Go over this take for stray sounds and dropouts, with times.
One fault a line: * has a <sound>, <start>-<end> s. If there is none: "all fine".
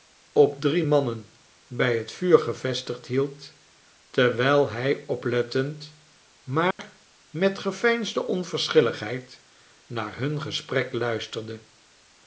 * has a dropout, 6.7-6.8 s